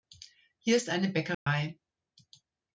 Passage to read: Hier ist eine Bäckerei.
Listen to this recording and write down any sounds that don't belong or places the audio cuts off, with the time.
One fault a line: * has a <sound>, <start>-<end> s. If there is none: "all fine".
* has a dropout, 1.3-1.5 s